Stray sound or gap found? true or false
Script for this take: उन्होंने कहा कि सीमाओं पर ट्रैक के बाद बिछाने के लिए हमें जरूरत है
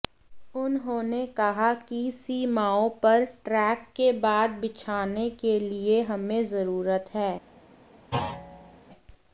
true